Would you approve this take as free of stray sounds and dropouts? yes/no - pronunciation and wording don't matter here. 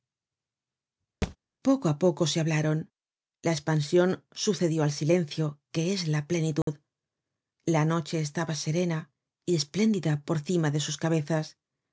no